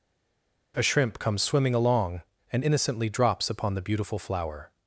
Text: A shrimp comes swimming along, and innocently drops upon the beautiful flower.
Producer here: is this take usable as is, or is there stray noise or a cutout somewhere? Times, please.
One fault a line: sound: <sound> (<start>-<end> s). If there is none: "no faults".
no faults